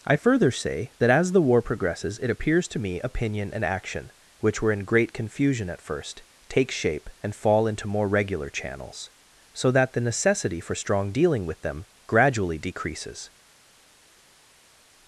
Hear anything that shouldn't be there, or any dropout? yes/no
no